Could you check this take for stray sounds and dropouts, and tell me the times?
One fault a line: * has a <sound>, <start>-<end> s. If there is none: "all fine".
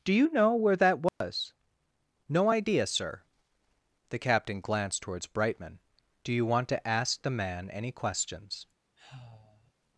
* has a dropout, 1.1-1.2 s
* has a sigh, 9.0-9.7 s